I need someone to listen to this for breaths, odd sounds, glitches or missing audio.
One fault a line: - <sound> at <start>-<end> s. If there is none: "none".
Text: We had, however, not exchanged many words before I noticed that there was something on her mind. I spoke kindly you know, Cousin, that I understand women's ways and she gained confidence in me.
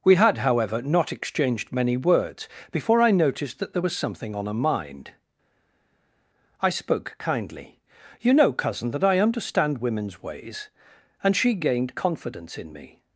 none